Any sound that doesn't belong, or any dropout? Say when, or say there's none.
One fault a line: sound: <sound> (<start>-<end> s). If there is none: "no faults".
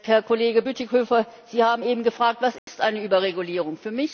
sound: dropout (2.6-2.7 s)